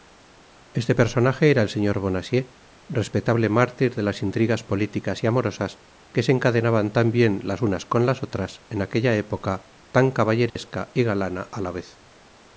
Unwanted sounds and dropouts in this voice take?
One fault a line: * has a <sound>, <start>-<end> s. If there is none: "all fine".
* has a dropout, 10.5-10.6 s